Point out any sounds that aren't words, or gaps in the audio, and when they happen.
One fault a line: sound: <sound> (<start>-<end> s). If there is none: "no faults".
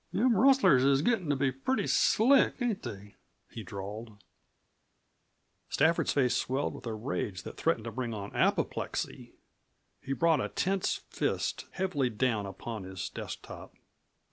no faults